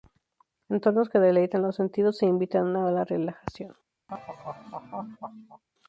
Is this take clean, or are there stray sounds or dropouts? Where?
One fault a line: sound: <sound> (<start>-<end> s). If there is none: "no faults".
sound: laugh (4.1-5.6 s)